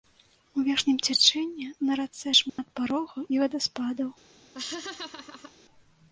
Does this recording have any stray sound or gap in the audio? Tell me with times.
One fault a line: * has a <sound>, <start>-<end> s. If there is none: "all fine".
* has a dropout, 2.5-2.6 s
* has a laugh, 4.5-5.5 s